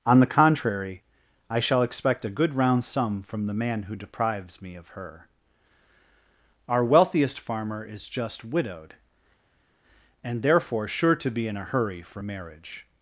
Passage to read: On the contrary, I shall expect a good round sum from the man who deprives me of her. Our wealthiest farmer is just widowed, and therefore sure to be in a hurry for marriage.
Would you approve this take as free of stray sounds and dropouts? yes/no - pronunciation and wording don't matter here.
yes